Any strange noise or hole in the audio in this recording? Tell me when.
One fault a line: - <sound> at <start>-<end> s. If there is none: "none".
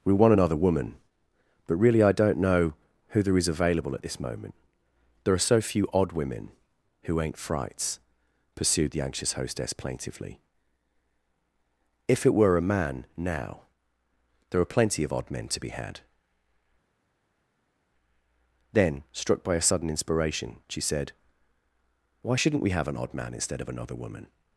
none